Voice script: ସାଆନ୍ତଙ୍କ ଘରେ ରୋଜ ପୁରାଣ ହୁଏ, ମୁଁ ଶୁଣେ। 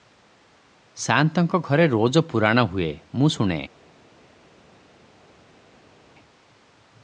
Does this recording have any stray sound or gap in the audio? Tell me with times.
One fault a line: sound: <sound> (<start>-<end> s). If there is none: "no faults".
no faults